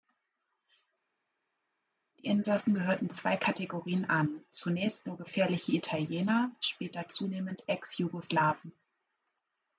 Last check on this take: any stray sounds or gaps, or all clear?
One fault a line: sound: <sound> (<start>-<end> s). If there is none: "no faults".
no faults